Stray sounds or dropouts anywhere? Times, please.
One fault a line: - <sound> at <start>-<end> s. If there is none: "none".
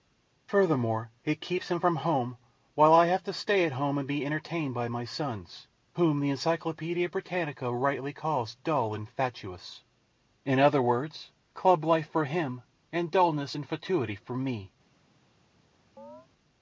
- chirp at 16.0-16.3 s